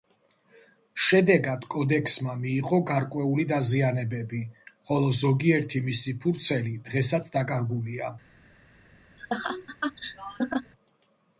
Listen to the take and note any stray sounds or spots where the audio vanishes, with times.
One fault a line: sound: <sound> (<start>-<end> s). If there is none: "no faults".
sound: laugh (9.2-10.7 s)